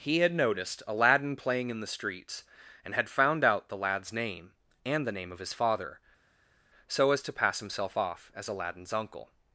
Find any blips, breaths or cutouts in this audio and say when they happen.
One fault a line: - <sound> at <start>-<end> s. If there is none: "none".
none